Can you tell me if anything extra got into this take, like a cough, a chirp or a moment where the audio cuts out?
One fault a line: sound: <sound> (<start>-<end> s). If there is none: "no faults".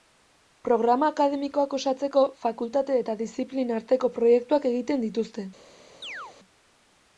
sound: chirp (6.0-6.4 s)